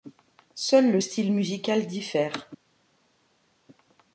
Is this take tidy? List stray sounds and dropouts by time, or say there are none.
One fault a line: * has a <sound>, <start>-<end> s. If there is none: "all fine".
all fine